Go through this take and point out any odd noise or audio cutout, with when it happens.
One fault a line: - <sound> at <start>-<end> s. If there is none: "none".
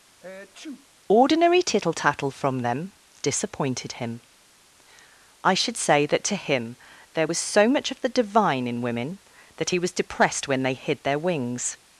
- sneeze at 0.2-0.9 s